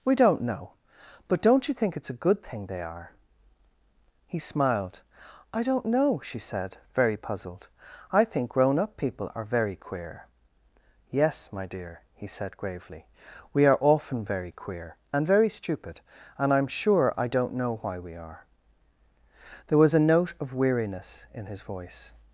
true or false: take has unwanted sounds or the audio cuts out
false